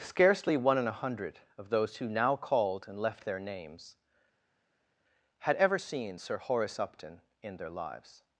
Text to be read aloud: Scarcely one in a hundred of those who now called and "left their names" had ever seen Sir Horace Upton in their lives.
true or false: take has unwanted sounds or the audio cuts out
false